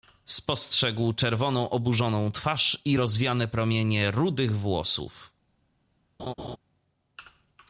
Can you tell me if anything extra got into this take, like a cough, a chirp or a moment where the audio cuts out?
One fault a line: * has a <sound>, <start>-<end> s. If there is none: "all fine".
* has a laugh, 6.2-6.6 s